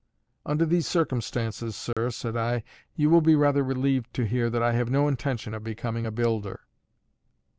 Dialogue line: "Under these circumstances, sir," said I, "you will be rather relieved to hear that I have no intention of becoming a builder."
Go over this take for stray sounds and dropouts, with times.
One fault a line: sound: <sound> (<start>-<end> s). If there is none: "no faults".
sound: dropout (1.9-2.0 s)